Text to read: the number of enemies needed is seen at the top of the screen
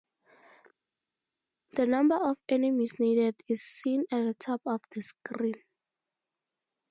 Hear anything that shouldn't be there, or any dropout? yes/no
no